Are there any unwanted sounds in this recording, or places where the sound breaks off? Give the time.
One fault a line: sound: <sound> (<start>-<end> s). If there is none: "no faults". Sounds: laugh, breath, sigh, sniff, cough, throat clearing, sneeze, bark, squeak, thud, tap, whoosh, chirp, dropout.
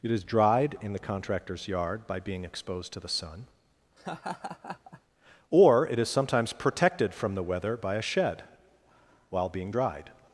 sound: laugh (4.0-5.0 s)